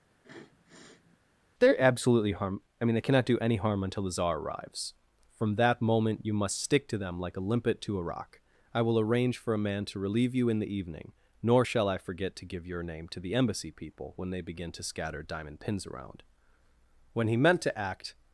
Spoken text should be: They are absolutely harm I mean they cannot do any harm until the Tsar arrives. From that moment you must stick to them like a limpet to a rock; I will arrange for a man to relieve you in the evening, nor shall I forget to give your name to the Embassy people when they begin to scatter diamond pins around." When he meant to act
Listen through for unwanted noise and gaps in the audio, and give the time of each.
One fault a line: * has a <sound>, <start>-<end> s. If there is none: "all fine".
* has a sniff, 0.1-1.2 s